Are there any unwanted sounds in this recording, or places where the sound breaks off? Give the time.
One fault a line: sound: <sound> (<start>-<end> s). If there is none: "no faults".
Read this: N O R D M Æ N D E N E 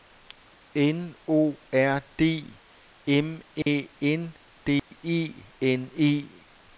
sound: dropout (3.6-3.7 s)
sound: dropout (4.8-4.9 s)